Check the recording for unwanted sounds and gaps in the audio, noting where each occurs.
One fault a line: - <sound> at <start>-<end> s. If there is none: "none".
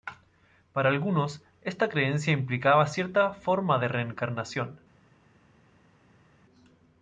none